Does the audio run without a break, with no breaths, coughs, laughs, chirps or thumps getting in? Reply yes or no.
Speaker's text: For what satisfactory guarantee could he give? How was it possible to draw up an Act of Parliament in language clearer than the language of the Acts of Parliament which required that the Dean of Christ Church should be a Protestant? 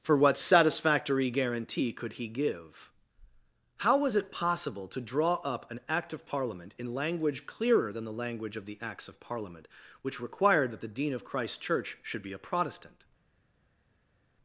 yes